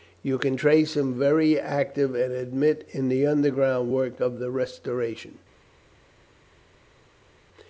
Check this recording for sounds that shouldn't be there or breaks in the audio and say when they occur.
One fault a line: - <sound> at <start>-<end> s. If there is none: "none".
none